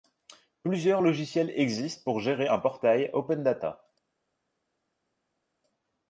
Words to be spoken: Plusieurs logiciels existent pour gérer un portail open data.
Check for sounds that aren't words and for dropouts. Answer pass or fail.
pass